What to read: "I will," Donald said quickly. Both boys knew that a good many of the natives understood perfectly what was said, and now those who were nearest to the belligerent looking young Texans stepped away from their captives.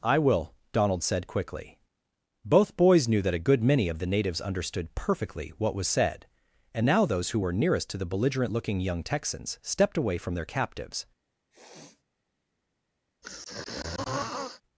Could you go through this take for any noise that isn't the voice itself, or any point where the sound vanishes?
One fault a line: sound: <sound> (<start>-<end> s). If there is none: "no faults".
sound: sniff (11.5-12.0 s)
sound: throat clearing (13.2-14.6 s)